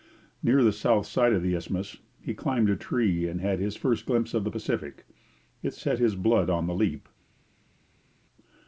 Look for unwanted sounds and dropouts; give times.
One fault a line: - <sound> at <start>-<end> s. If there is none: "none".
none